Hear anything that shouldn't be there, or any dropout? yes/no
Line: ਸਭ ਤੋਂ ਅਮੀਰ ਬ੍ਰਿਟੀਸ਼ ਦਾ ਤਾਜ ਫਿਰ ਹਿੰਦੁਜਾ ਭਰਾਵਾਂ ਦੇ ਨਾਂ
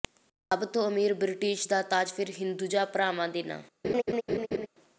yes